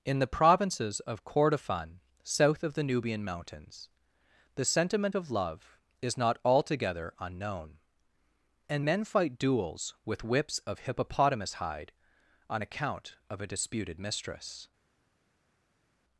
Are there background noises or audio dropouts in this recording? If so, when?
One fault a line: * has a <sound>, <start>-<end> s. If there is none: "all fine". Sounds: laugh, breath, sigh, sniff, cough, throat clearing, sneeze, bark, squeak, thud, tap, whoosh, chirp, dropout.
all fine